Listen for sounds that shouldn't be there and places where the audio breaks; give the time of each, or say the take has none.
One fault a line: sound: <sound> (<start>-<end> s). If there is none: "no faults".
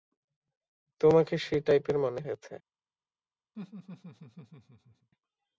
sound: laugh (3.5-5.1 s)